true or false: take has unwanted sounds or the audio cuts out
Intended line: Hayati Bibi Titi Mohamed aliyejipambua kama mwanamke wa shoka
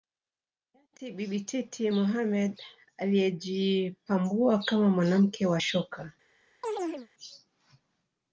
true